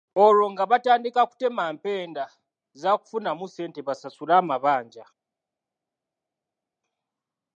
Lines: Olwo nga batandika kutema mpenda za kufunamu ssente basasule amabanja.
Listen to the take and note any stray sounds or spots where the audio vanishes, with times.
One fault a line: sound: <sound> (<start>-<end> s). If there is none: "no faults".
no faults